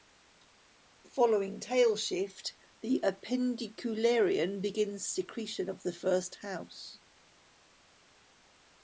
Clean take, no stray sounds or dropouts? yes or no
yes